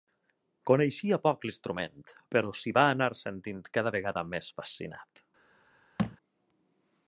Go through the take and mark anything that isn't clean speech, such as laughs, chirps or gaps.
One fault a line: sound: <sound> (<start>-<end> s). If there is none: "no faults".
sound: thud (6.0-6.2 s)